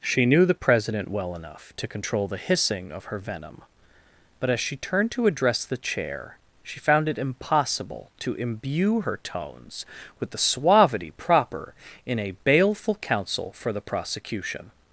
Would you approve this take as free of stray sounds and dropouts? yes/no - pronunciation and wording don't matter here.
yes